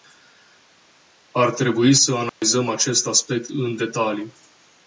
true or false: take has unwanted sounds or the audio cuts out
true